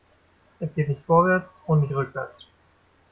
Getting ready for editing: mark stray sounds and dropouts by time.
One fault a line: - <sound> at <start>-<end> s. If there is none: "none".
none